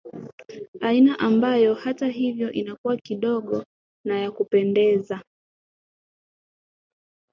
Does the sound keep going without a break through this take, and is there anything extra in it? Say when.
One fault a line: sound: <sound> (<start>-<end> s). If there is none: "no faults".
no faults